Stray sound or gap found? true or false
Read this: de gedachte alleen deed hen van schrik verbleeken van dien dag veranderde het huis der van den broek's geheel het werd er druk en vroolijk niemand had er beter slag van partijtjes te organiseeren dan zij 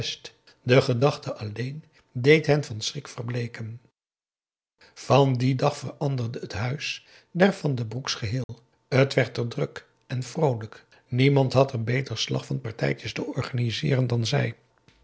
true